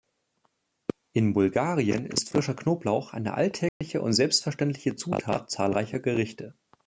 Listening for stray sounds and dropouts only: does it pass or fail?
fail